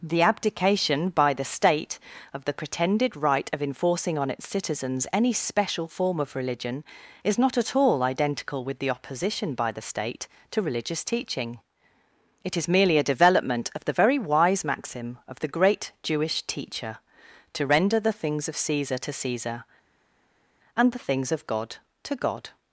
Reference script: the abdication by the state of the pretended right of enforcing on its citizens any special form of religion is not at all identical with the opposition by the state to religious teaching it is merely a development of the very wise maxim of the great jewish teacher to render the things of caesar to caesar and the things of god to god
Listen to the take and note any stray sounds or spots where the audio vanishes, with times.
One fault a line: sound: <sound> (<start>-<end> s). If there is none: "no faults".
no faults